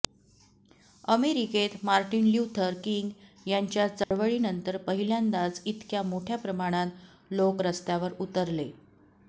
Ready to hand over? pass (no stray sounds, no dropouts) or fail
fail